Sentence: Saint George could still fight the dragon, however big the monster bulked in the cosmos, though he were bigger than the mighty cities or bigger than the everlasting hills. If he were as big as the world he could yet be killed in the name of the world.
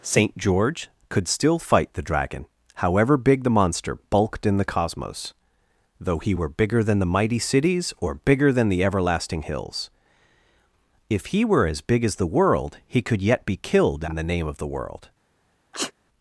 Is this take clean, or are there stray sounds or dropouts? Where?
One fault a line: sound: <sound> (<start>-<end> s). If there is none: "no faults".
sound: sneeze (15.7-15.9 s)